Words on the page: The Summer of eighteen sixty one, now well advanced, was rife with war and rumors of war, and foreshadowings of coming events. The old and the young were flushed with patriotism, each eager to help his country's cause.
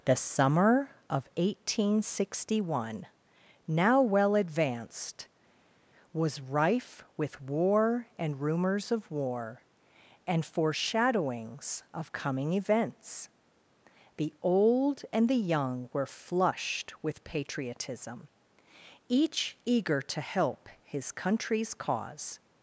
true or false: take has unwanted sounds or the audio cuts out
false